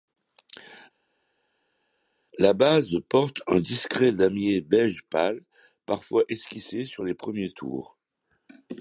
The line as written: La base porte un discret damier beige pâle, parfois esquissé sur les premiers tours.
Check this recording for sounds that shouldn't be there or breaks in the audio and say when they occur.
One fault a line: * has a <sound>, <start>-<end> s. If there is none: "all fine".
all fine